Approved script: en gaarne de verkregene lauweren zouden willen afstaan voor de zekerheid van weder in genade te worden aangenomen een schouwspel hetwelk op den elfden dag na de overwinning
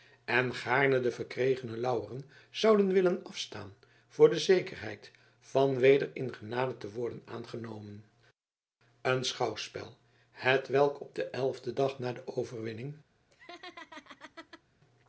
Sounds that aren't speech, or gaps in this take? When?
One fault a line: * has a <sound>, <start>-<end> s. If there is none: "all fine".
* has a laugh, 13.3-14.6 s